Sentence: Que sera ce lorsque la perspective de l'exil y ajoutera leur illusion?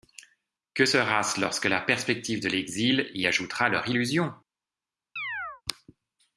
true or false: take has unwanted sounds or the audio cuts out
true